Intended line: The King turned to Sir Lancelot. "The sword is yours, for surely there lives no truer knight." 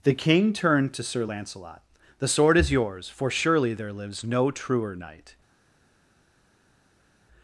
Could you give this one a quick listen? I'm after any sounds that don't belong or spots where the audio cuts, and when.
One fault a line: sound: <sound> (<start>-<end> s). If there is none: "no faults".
no faults